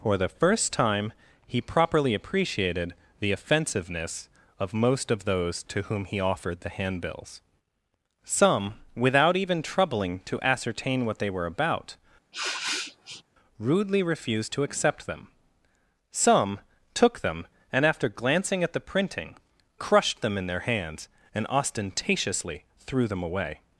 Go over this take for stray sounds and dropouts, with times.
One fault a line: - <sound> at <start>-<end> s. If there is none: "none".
- sniff at 12.3-13.2 s